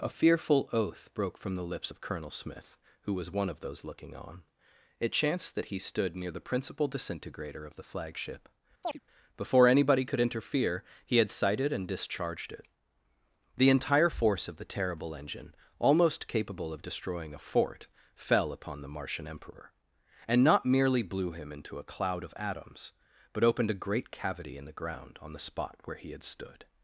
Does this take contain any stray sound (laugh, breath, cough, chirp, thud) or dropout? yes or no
yes